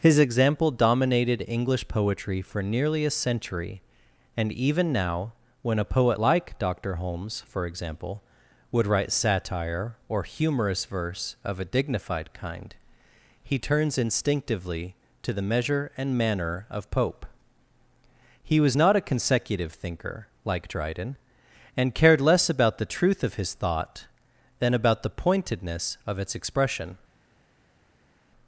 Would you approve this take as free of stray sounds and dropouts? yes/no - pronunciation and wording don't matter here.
yes